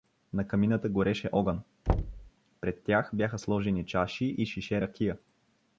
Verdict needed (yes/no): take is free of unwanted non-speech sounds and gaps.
no